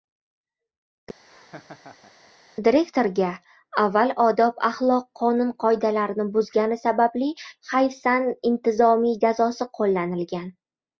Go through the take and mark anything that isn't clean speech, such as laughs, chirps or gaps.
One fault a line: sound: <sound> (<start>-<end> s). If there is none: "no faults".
sound: laugh (1.3-2.3 s)